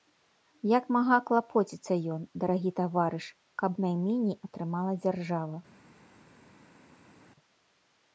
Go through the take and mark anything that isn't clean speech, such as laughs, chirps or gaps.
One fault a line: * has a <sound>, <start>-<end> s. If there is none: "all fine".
all fine